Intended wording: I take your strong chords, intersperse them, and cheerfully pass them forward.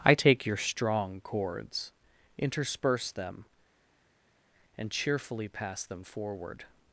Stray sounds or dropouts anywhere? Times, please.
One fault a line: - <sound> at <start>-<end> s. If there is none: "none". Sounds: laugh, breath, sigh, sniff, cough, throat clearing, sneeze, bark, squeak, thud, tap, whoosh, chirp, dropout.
none